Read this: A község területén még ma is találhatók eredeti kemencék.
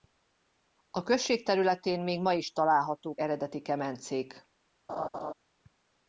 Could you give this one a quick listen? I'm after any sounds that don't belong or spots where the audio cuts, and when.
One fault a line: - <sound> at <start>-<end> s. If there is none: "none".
- laugh at 4.9-5.3 s